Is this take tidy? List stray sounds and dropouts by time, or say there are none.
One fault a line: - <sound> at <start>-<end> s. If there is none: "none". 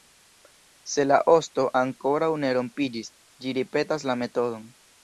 none